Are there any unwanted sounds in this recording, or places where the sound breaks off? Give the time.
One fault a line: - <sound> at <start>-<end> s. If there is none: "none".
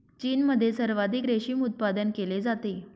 none